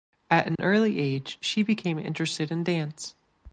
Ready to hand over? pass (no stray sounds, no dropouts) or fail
fail